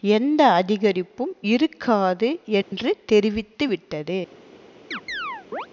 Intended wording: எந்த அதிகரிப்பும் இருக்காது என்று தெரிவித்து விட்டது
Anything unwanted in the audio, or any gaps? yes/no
yes